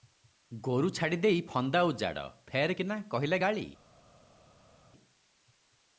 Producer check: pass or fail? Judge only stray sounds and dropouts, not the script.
pass